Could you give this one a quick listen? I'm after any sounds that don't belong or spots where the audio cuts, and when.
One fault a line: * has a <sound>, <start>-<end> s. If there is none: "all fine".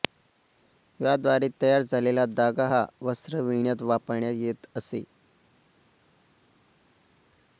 all fine